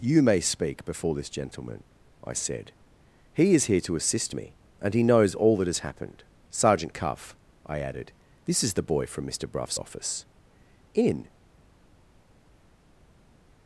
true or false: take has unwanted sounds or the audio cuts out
false